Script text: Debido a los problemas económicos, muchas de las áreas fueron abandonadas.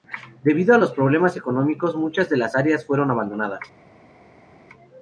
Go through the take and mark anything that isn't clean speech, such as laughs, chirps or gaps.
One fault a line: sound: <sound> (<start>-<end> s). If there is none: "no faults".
no faults